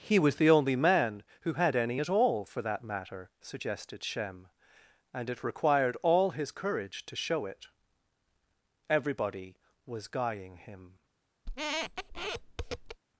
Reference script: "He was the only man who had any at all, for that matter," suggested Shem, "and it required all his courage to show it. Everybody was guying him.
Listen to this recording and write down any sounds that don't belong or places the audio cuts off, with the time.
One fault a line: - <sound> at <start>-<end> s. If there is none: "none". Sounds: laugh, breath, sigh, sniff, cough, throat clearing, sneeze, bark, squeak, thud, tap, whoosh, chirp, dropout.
- squeak at 11.5-13.0 s